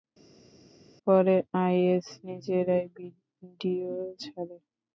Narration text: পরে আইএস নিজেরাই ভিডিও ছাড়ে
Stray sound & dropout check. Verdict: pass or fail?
pass